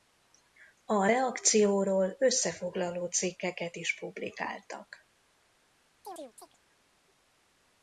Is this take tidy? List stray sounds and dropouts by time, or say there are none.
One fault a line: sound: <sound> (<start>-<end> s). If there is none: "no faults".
sound: chirp (6.0-6.6 s)